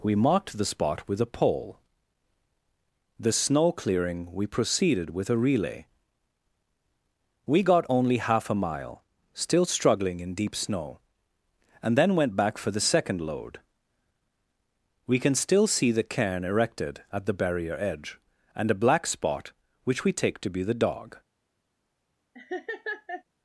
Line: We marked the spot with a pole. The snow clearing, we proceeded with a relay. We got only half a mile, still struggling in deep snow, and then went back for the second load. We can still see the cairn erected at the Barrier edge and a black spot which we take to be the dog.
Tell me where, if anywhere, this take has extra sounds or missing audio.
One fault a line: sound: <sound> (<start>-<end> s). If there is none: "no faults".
sound: laugh (22.3-23.2 s)